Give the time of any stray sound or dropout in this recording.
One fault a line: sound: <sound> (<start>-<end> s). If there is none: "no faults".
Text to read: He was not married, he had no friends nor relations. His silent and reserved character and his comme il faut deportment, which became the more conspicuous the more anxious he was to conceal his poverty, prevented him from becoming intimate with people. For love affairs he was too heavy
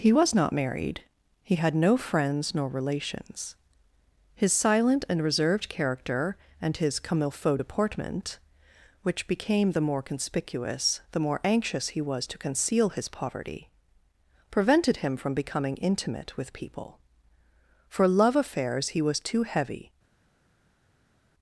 no faults